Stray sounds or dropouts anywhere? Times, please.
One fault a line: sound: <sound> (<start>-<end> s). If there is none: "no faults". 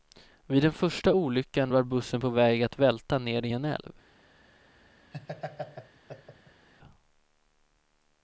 sound: laugh (5.1-6.7 s)